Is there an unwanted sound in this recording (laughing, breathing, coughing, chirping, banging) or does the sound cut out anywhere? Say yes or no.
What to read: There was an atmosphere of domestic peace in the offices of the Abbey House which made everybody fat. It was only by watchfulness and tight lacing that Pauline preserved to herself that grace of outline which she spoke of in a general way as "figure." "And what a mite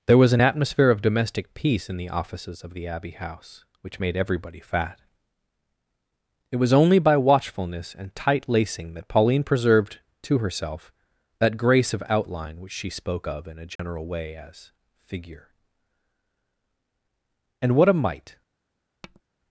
yes